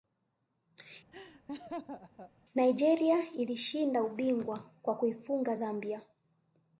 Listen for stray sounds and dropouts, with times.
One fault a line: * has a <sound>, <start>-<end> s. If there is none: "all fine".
* has a laugh, 1.1-2.3 s